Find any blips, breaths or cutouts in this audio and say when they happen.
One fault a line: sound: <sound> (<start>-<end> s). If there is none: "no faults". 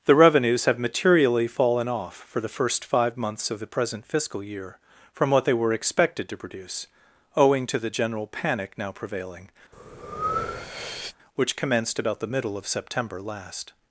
sound: breath (9.7-11.2 s)